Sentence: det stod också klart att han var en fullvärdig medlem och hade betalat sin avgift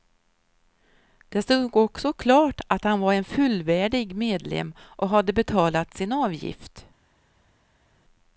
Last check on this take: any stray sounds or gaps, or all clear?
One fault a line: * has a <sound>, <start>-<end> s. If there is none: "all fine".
all fine